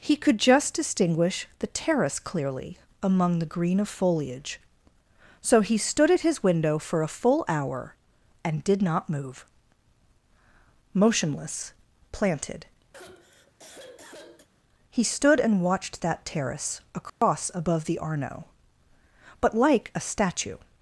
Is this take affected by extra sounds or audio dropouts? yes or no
yes